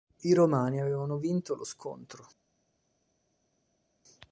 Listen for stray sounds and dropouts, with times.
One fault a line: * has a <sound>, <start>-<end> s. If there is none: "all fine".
all fine